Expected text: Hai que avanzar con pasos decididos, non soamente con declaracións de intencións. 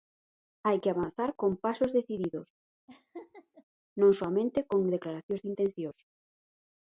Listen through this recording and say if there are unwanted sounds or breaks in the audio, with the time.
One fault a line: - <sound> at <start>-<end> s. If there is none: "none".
- laugh at 2.9-3.6 s